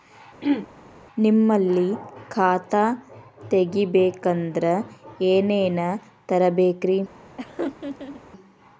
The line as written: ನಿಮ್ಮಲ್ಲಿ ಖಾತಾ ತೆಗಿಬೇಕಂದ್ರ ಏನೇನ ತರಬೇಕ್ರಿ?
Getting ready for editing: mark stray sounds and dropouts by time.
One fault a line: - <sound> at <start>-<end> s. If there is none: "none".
- throat clearing at 0.4-0.7 s
- laugh at 7.4-8.2 s